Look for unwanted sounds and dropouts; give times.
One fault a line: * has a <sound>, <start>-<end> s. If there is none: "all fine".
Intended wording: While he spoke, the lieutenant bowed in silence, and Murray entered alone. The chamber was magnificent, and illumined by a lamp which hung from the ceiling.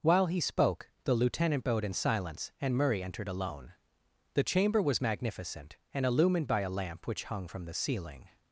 all fine